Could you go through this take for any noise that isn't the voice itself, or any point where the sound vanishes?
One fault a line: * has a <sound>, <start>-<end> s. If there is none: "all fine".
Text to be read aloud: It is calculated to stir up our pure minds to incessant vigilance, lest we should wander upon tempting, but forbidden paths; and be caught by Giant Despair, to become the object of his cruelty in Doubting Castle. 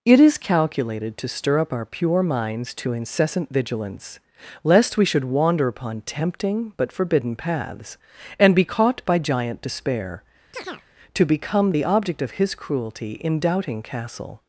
* has a chirp, 10.5-10.9 s